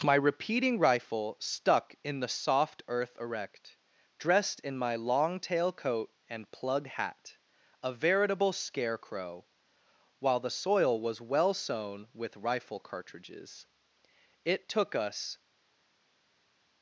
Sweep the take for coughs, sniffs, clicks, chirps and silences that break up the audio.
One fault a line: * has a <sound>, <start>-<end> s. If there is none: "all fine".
all fine